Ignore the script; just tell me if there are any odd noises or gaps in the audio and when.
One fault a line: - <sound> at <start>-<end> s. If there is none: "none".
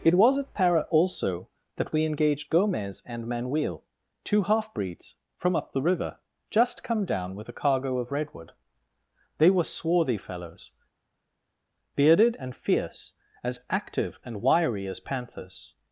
none